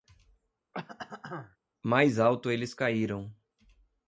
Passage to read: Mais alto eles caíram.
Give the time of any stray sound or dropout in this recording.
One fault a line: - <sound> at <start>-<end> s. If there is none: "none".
- throat clearing at 0.7-1.6 s